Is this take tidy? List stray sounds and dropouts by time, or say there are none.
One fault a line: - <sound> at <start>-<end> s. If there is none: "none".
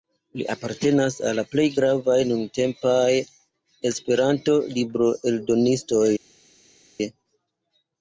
none